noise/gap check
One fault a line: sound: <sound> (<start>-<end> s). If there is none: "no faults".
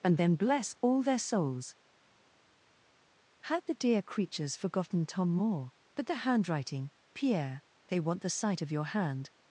no faults